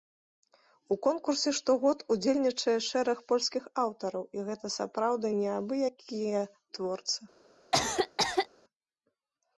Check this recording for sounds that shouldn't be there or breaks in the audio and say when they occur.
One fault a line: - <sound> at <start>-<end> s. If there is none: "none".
- cough at 7.7-8.5 s